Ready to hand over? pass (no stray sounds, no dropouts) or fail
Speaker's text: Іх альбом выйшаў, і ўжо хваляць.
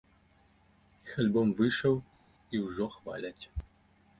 pass